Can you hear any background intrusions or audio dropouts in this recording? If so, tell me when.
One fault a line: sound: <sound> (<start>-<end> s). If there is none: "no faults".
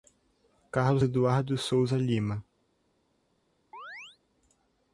sound: chirp (3.7-4.2 s)